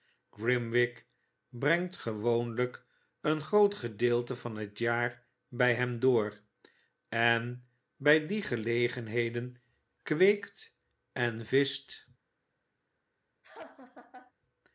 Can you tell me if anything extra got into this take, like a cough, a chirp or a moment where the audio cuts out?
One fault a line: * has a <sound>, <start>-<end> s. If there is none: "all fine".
* has a laugh, 13.4-14.3 s